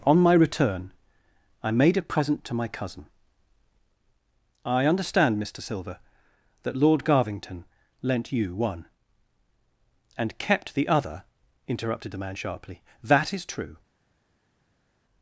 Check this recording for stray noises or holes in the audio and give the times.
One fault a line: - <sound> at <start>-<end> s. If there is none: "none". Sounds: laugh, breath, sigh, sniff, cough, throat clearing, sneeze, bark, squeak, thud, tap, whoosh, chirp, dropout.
none